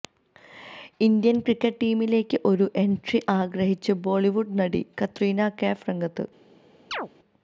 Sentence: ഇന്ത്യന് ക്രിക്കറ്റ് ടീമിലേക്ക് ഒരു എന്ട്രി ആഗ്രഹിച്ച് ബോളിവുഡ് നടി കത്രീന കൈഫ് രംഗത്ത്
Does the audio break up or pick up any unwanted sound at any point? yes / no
yes